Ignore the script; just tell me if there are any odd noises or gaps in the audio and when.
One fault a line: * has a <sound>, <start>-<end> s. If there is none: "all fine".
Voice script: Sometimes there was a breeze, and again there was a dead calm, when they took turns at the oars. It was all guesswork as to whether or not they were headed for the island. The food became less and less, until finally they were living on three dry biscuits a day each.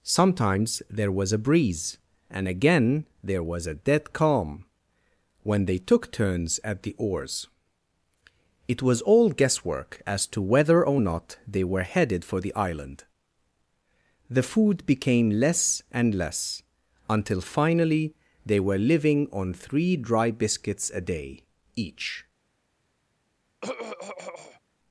* has a throat clearing, 23.6-24.6 s